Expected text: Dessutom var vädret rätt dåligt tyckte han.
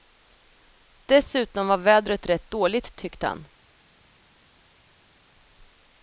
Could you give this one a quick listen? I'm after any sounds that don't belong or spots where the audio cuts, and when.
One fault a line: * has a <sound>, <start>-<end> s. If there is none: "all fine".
all fine